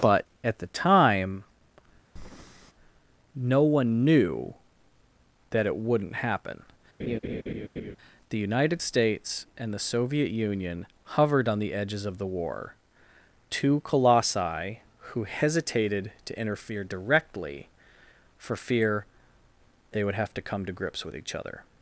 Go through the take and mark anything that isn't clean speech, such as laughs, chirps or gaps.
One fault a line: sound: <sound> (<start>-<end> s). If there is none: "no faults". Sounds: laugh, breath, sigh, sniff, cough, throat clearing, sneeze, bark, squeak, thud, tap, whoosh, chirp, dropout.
sound: breath (2.2-2.7 s)
sound: laugh (7.0-8.0 s)